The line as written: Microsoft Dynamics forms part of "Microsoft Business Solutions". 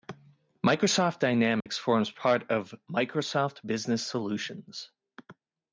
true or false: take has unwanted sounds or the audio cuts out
true